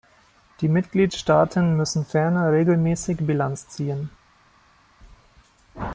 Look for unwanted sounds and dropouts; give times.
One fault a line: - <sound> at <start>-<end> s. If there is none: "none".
none